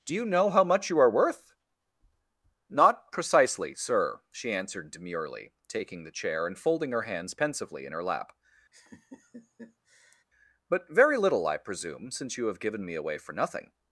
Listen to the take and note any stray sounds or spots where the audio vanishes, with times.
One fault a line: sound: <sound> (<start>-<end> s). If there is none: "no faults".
sound: laugh (8.7-10.2 s)